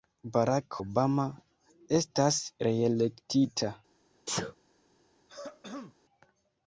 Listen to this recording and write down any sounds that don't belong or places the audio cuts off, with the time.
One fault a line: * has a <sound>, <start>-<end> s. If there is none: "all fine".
* has a sneeze, 4.3-4.5 s
* has a throat clearing, 5.3-6.0 s